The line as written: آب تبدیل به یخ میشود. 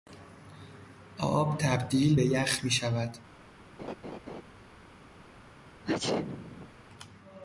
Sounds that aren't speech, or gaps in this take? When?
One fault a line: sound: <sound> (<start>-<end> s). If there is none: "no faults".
sound: laugh (3.8-4.4 s)
sound: sneeze (5.8-6.7 s)